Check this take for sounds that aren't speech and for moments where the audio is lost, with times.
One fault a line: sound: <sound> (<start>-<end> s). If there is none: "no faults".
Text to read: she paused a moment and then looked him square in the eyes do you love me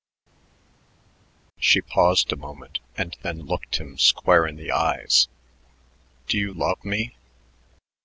no faults